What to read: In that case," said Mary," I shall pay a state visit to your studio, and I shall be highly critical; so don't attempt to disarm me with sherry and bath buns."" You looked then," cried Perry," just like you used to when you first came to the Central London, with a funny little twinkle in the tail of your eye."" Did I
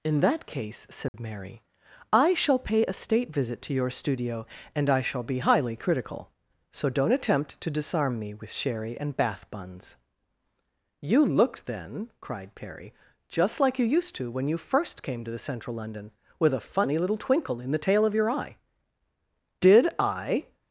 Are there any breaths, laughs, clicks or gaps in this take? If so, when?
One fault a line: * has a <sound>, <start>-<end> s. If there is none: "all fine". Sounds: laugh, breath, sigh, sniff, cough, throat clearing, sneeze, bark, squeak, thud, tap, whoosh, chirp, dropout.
* has a dropout, 1.1-1.1 s